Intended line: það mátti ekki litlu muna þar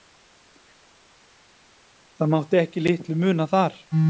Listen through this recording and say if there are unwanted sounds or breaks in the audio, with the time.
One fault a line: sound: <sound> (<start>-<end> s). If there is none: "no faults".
no faults